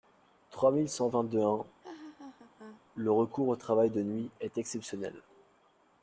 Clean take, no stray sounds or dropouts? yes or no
no